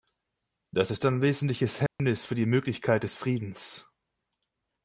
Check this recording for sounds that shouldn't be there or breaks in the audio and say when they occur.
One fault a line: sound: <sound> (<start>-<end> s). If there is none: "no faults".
sound: dropout (1.9-2.0 s)